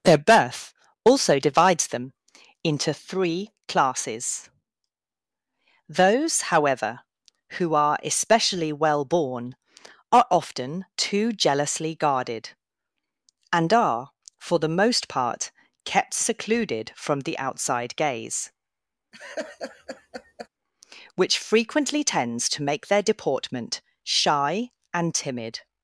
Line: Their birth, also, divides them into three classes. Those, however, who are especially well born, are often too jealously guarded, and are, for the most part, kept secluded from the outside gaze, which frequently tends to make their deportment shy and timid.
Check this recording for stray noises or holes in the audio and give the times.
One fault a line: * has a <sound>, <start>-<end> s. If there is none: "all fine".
* has a laugh, 19.1-20.5 s